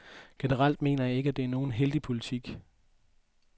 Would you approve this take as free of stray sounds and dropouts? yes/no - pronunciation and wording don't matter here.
yes